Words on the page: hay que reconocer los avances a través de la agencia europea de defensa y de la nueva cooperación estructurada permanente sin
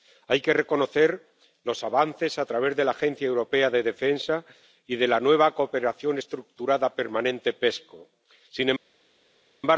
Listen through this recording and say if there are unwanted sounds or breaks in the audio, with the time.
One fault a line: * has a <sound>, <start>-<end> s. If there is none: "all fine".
all fine